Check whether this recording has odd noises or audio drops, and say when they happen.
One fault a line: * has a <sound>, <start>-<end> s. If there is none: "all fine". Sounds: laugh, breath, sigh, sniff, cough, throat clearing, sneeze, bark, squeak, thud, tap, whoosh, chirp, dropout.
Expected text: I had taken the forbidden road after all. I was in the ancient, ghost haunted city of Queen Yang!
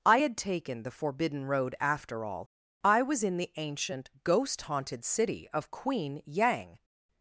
all fine